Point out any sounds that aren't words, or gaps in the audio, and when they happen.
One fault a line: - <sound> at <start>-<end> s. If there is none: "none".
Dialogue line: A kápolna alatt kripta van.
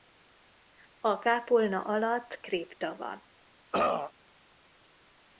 - throat clearing at 3.7-4.1 s